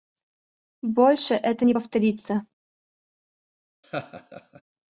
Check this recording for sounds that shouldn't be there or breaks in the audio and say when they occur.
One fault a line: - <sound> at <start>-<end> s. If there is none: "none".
- laugh at 3.8-4.6 s